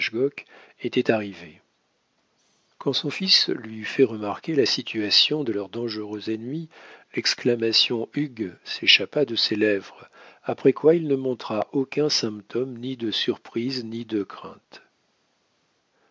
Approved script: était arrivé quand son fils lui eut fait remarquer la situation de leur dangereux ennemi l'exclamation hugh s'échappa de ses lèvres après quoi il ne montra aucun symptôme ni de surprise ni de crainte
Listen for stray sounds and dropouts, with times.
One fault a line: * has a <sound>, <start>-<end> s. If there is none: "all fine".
all fine